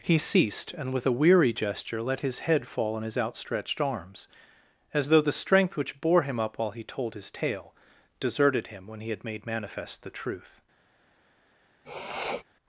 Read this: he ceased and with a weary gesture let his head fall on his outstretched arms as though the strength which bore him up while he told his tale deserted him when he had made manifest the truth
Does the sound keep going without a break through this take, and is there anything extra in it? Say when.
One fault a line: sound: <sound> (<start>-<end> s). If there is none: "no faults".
sound: sniff (11.8-12.4 s)